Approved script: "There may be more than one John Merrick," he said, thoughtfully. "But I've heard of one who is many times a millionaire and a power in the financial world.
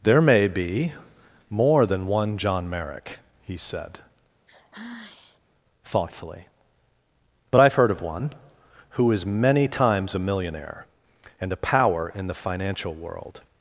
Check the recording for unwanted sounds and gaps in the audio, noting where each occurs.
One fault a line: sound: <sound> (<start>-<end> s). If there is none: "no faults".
sound: sigh (4.5-5.4 s)